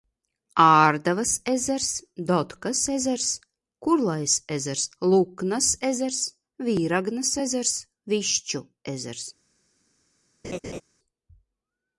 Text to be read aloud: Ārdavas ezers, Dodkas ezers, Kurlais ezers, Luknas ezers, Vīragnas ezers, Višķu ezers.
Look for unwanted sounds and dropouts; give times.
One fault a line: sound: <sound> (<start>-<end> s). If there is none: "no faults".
sound: laugh (10.4-10.8 s)